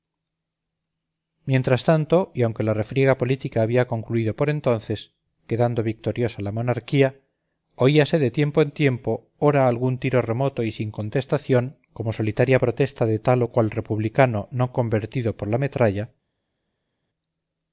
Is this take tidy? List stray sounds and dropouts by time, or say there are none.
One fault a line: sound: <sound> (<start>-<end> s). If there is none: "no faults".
no faults